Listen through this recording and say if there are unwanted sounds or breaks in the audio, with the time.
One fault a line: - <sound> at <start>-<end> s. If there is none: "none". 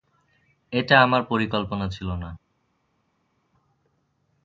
none